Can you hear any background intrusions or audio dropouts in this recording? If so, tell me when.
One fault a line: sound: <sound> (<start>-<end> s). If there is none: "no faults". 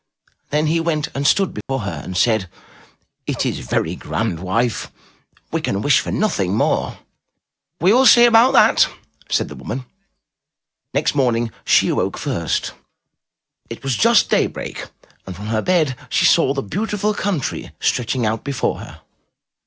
sound: dropout (1.6-1.7 s)